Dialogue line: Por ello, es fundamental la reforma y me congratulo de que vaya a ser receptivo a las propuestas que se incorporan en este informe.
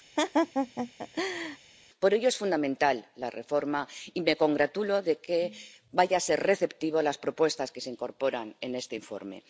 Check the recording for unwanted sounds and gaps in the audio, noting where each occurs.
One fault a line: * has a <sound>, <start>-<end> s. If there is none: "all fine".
* has a laugh, 0.2-1.6 s